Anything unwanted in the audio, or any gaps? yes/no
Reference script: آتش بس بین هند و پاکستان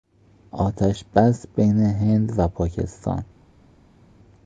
no